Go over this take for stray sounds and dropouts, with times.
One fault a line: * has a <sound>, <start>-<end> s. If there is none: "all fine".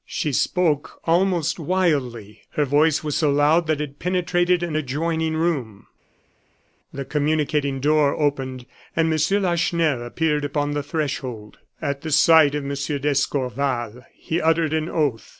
all fine